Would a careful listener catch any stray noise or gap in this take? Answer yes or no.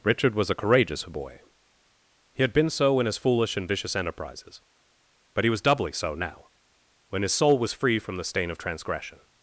no